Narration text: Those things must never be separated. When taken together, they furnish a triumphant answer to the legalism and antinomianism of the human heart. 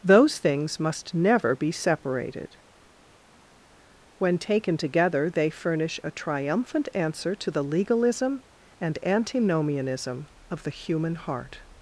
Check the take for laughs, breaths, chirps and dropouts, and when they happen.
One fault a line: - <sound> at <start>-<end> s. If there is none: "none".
none